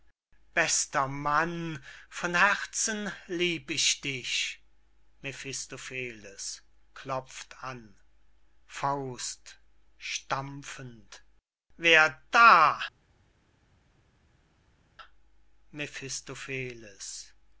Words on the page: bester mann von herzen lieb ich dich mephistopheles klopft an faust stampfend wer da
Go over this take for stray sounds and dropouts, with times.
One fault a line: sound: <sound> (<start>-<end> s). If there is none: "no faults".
no faults